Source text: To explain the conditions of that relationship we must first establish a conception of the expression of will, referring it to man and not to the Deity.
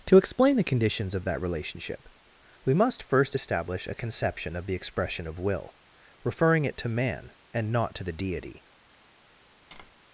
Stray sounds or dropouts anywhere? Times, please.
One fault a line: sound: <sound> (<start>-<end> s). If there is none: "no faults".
sound: tap (9.7-9.9 s)